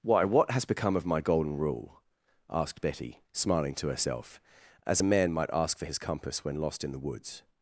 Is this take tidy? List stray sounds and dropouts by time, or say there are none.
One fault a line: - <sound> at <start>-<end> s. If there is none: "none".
none